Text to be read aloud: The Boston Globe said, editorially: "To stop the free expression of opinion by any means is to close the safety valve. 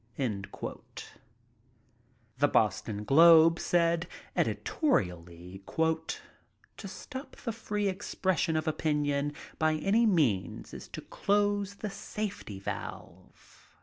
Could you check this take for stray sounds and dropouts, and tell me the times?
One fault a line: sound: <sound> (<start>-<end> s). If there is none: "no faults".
no faults